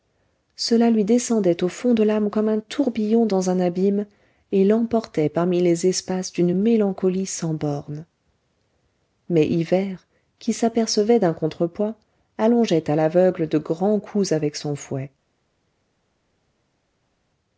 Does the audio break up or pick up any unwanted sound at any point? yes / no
no